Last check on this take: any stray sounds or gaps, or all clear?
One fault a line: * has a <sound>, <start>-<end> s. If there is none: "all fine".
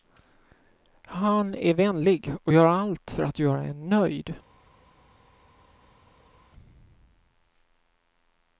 all fine